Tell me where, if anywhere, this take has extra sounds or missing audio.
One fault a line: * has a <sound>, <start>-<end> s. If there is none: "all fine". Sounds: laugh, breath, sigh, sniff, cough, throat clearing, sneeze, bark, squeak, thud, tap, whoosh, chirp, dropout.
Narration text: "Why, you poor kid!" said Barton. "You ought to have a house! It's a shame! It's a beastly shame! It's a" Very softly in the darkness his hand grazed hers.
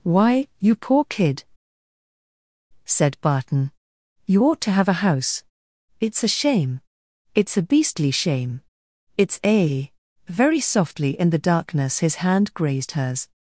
all fine